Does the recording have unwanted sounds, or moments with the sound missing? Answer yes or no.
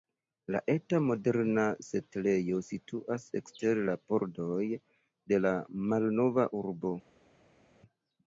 no